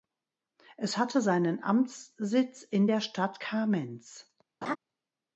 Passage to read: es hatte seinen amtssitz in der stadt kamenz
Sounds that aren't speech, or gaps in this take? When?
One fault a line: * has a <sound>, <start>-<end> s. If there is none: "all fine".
* has a laugh, 4.6-4.8 s